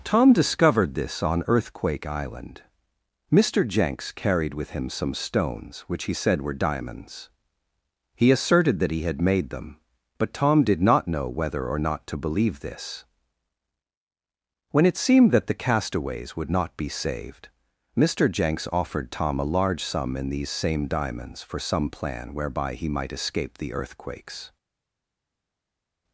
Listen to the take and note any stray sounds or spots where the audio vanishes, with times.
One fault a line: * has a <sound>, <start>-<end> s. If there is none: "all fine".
all fine